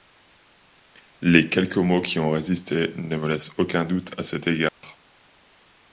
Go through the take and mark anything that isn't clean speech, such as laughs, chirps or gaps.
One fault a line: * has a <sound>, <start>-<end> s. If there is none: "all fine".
* has a dropout, 4.7-4.8 s